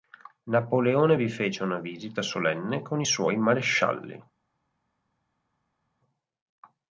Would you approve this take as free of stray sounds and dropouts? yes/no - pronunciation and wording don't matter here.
yes